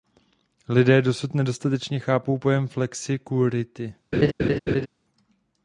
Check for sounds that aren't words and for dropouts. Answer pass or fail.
fail